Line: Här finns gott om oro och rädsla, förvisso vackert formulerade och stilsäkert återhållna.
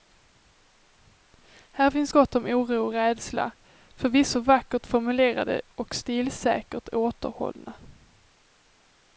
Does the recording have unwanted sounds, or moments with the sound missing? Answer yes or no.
no